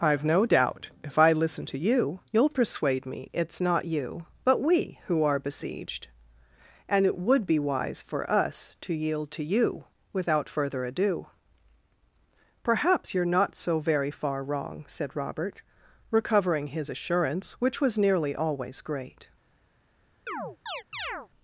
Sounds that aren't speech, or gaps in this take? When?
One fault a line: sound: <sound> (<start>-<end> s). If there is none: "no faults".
sound: chirp (20.3-21.3 s)